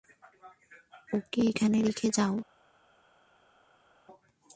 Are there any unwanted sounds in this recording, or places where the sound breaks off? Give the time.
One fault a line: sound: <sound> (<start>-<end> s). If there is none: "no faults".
no faults